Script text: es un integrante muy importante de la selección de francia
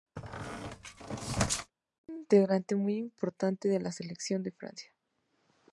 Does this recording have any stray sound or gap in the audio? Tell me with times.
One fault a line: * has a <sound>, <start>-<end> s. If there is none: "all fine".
* has a squeak, 0.2-1.7 s